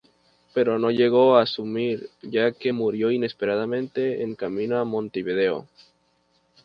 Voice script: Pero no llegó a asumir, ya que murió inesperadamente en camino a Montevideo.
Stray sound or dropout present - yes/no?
no